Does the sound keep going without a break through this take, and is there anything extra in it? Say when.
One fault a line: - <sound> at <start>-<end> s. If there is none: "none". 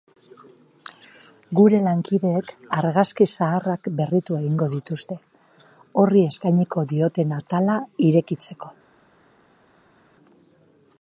none